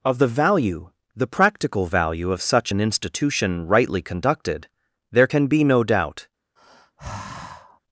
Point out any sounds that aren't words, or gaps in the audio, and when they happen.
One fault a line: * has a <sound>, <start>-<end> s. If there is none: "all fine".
* has a sigh, 6.6-7.8 s